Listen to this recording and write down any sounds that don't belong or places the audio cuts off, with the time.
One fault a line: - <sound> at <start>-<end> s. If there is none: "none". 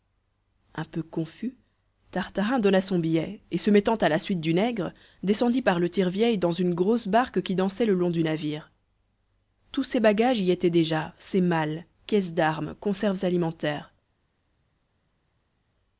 none